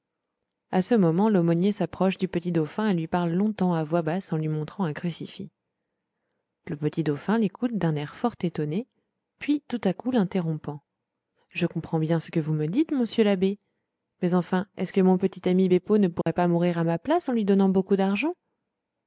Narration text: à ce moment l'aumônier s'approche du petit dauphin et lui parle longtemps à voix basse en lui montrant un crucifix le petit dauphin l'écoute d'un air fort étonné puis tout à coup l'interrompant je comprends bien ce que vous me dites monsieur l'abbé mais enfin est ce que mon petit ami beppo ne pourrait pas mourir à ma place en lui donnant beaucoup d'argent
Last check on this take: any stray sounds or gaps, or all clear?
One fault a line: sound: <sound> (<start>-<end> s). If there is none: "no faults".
sound: dropout (16.2-16.3 s)